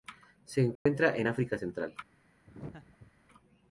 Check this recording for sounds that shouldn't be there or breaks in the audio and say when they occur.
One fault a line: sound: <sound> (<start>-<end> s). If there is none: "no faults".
sound: dropout (0.8-0.9 s)
sound: laugh (2.5-3.1 s)